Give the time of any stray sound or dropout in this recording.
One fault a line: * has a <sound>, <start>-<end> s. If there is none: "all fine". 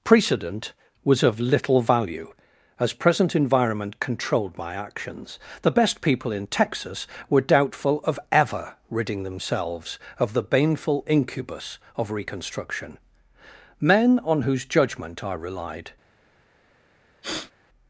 * has a sniff, 17.2-17.5 s